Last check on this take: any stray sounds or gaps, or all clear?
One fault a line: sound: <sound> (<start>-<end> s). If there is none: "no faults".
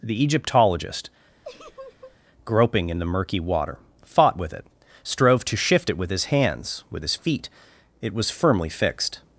sound: laugh (1.4-2.2 s)